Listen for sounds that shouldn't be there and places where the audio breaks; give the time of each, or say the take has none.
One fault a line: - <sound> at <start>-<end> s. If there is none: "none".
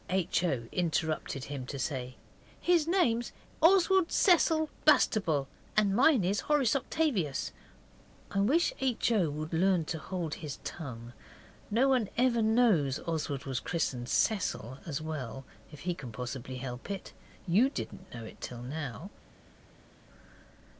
none